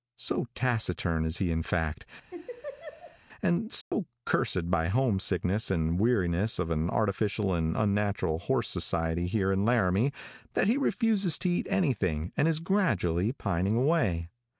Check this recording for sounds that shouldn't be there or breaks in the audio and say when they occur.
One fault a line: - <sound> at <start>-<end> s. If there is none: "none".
- laugh at 2.3-3.2 s
- dropout at 3.8-3.9 s